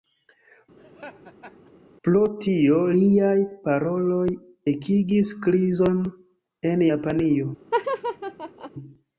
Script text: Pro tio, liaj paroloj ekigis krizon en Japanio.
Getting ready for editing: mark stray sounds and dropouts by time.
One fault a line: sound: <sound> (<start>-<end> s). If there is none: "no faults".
sound: laugh (0.8-1.7 s)
sound: laugh (7.7-8.7 s)